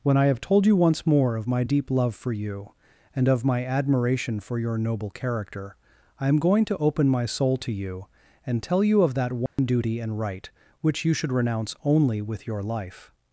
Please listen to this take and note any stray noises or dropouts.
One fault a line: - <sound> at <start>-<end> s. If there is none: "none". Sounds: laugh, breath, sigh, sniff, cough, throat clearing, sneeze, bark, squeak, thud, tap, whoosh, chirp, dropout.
- dropout at 9.5-9.6 s